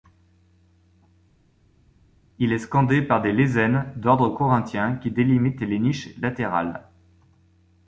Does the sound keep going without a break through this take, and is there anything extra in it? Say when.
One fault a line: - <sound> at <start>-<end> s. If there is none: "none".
none